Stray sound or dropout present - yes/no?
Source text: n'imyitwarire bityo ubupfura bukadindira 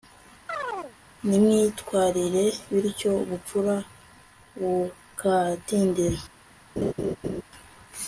yes